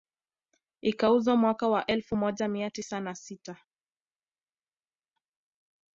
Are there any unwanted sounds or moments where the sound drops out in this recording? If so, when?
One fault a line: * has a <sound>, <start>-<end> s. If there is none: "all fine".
all fine